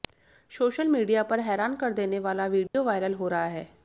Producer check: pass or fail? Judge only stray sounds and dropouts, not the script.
fail